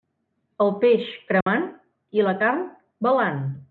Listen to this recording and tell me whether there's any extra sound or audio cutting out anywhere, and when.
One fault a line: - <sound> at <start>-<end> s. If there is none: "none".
- dropout at 1.4-1.5 s